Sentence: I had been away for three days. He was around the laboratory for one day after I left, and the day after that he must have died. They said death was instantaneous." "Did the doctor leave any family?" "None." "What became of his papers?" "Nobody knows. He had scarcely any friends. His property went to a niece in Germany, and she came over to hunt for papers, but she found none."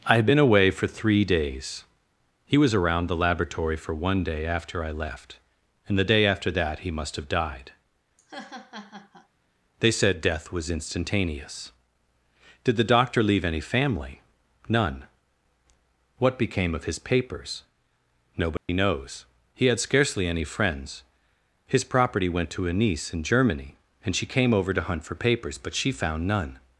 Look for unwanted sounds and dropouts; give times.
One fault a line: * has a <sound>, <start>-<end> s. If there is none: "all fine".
* has a laugh, 8.2-9.3 s
* has a dropout, 18.6-18.7 s